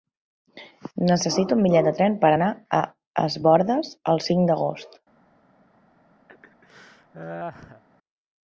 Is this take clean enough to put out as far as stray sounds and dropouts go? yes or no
no